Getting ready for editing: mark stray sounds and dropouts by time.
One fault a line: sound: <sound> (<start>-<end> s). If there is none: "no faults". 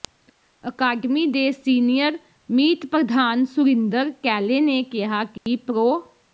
sound: dropout (5.4-5.5 s)